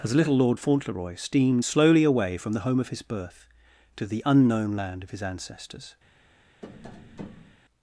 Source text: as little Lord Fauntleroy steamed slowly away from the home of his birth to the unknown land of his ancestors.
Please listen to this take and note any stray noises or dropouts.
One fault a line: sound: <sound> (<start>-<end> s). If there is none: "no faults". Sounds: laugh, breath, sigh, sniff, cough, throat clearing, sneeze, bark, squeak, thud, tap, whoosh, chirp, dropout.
sound: tap (6.6-7.6 s)